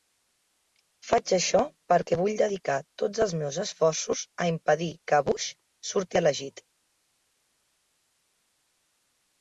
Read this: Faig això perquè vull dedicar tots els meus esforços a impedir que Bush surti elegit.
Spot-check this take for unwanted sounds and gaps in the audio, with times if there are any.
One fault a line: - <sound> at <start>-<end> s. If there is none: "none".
none